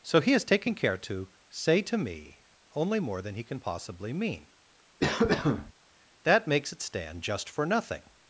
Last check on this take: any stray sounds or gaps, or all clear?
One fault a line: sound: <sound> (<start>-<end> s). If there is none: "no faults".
sound: cough (5.0-5.7 s)